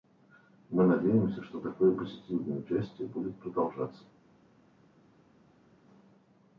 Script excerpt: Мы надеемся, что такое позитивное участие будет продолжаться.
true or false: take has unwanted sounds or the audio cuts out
false